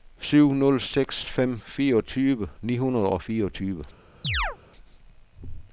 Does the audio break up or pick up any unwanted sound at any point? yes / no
yes